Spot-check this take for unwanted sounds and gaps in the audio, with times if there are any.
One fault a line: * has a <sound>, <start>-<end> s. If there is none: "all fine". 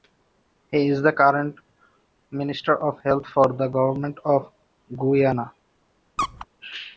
* has a squeak, 6.2-6.5 s